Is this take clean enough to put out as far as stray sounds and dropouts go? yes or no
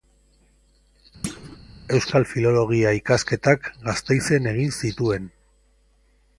no